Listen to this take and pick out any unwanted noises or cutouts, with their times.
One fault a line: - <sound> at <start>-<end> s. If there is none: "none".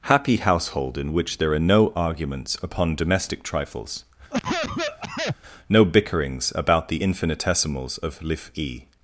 - cough at 4.3-5.4 s